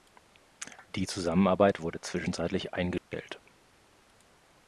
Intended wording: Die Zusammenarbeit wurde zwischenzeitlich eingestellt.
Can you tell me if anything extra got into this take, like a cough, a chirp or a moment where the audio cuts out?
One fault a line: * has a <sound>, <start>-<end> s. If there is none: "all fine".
* has a dropout, 3.0-3.1 s